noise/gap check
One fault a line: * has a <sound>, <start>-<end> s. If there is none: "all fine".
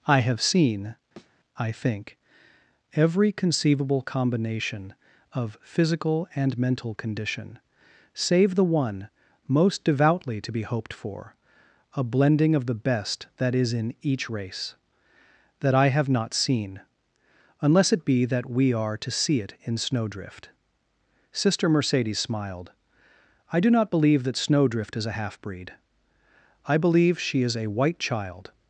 * has a thud, 1.2-1.4 s